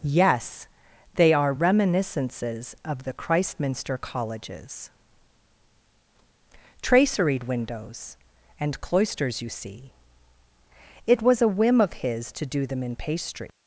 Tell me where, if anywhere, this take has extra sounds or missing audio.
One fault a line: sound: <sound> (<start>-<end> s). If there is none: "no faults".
no faults